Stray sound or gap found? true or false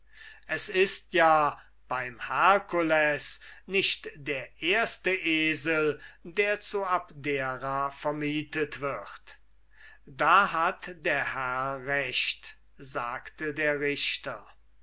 false